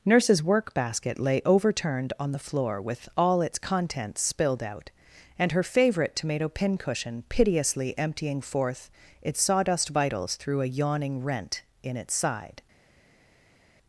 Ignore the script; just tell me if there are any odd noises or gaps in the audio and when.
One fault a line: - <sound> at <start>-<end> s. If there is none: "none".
none